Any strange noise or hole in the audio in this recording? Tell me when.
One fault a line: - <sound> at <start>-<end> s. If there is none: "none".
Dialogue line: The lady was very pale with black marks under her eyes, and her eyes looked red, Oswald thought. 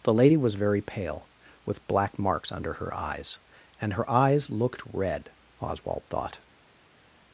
none